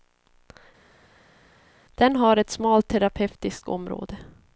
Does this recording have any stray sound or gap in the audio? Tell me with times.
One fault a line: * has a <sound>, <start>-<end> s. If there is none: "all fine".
all fine